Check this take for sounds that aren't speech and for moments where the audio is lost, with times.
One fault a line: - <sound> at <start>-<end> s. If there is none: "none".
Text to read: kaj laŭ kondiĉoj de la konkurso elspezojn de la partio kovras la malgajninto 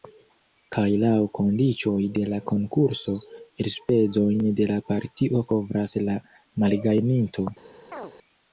- chirp at 7.9-8.1 s